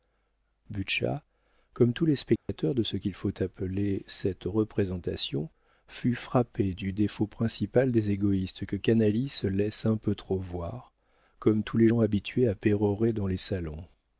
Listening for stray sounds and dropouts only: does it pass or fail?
fail